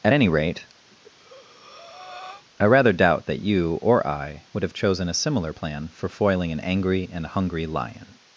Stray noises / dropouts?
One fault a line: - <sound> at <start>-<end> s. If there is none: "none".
- breath at 0.9-2.4 s